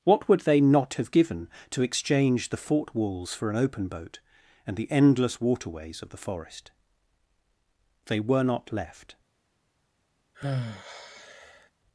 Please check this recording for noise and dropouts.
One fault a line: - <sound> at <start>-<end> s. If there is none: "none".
- sigh at 10.3-11.7 s